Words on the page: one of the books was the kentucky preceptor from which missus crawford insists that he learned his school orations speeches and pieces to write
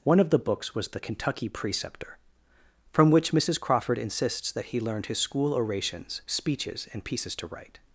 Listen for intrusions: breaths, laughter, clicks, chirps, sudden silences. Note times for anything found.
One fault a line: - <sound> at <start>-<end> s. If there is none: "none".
none